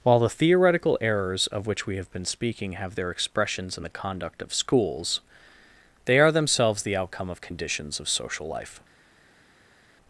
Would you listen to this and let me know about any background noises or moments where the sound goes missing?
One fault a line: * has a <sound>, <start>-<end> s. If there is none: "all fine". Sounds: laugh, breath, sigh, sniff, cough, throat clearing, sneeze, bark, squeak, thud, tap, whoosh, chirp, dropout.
all fine